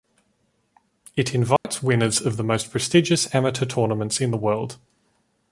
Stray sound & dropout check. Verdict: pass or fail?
fail